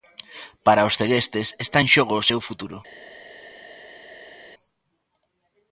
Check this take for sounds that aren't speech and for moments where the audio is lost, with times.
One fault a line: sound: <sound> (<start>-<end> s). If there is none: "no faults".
no faults